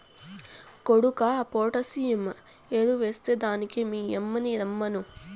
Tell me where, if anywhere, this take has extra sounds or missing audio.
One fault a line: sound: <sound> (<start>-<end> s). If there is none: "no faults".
no faults